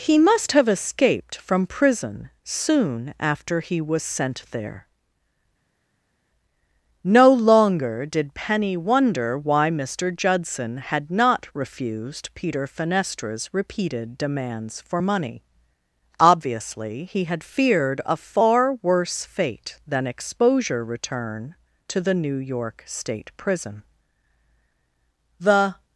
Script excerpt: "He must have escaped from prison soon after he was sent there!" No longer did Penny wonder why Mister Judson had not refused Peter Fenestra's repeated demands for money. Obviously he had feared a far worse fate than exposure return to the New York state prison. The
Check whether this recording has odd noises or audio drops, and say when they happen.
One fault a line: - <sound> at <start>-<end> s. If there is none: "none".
none